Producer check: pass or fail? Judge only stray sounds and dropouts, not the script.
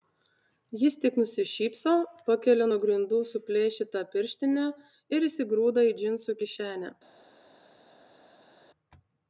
pass